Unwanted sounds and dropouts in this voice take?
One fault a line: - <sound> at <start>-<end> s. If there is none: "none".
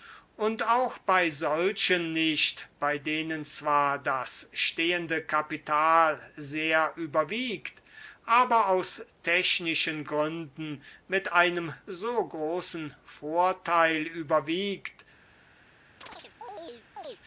- chirp at 16.0-17.2 s